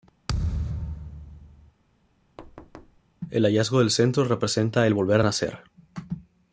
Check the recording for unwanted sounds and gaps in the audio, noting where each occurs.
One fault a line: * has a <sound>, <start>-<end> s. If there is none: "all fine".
* has a thud, 0.3-1.7 s
* has a thud, 2.4-3.0 s